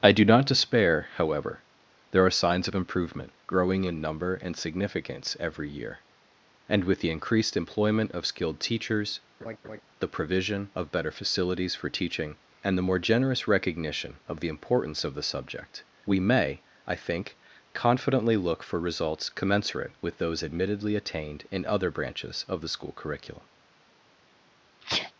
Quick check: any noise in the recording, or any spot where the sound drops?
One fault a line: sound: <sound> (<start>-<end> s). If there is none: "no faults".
sound: laugh (9.4-9.8 s)
sound: sneeze (24.8-25.1 s)